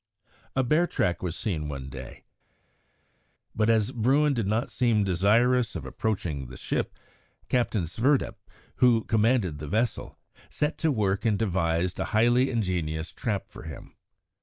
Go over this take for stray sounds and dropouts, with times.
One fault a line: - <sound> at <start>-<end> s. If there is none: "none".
none